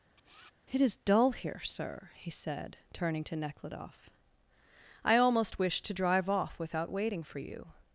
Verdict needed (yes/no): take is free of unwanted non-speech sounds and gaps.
no